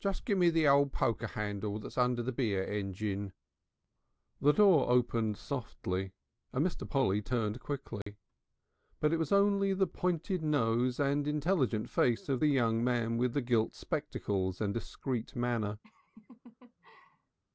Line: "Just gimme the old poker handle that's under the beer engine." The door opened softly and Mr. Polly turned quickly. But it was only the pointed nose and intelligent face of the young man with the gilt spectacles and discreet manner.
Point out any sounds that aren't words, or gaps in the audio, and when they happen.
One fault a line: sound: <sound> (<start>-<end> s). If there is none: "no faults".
sound: dropout (8.0-8.1 s)
sound: laugh (15.8-17.4 s)